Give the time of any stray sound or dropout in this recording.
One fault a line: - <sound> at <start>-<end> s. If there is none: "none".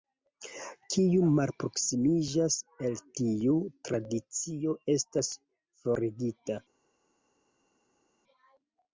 none